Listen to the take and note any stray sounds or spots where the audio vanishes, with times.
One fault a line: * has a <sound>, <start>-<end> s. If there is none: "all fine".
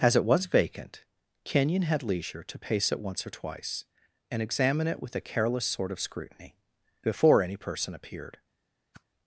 * has a whoosh, 8.9-9.0 s